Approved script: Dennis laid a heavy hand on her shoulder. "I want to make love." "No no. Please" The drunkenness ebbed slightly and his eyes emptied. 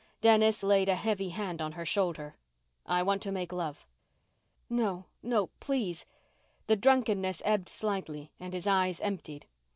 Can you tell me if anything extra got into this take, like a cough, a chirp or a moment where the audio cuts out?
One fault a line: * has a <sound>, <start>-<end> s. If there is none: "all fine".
all fine